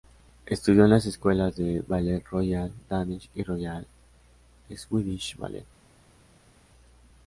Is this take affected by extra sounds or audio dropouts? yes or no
no